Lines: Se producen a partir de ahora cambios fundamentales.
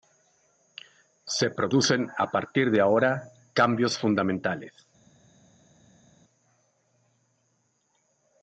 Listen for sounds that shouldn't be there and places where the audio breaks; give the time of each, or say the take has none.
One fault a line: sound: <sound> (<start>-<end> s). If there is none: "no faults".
no faults